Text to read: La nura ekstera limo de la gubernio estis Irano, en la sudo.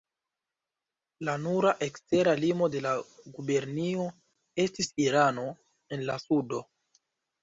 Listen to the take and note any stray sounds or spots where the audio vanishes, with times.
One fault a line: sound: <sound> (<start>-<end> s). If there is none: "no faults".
no faults